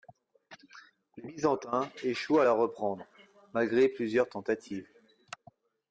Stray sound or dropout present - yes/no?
no